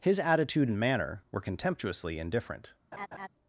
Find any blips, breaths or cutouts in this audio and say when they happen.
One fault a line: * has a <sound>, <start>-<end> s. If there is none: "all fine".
* has a laugh, 2.9-3.3 s